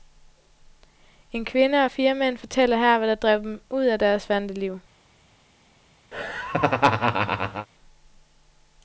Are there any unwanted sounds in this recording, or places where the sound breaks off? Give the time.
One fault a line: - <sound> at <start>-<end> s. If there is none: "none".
- laugh at 6.1-7.7 s